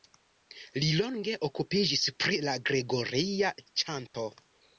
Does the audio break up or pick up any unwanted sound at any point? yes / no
yes